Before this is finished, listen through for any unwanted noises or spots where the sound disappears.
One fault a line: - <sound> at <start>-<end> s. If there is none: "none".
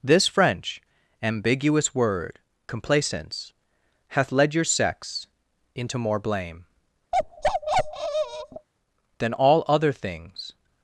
- bark at 7.1-8.7 s